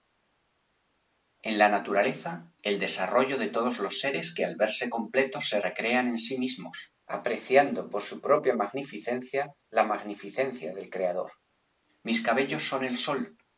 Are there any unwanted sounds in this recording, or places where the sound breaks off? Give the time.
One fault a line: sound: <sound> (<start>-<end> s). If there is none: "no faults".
no faults